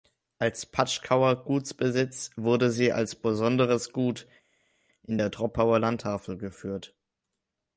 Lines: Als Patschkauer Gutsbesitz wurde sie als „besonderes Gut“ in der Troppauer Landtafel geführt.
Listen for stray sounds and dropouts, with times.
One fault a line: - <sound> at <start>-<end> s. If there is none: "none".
none